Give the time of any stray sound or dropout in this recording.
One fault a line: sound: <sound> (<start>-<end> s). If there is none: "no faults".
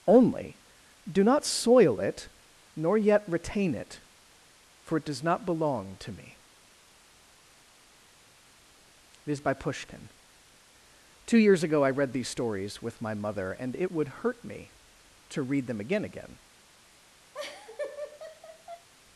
sound: laugh (17.3-18.9 s)